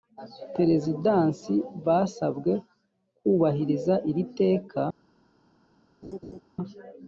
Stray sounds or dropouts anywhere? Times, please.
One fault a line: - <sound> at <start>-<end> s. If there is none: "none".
- laugh at 6.0-6.4 s